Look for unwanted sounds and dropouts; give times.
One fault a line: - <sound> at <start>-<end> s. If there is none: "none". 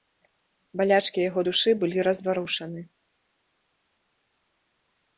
none